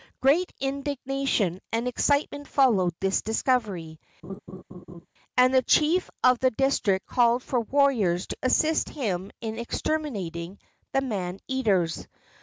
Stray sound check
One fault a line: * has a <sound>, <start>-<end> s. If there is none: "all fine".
* has a laugh, 4.2-5.1 s